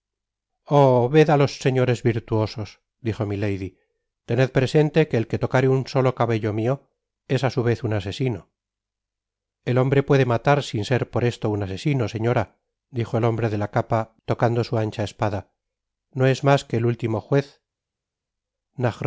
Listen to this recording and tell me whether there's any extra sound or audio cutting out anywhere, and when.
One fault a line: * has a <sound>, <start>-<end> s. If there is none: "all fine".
all fine